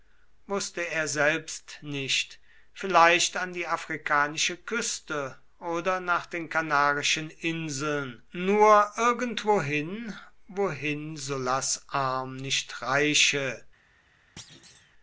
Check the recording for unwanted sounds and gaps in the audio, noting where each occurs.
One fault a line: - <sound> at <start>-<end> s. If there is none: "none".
- thud at 14.4-14.9 s